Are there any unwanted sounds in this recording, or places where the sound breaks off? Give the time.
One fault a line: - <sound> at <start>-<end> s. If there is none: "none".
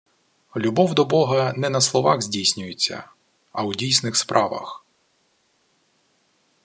none